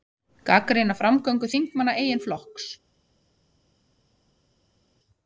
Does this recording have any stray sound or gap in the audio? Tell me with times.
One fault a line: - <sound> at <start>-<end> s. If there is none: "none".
none